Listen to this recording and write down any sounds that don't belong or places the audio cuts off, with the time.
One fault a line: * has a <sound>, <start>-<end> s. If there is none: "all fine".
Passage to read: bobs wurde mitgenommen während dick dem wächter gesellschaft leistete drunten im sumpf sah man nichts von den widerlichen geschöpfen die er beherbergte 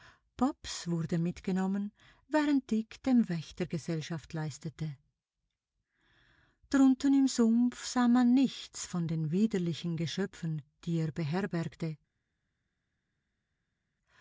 all fine